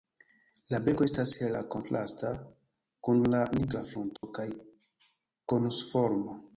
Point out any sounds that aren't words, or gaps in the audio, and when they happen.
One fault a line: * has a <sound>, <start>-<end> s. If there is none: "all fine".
* has a dropout, 4.2-4.2 s